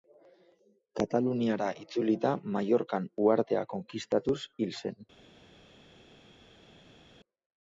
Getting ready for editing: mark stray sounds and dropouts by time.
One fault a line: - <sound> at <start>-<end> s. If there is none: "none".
none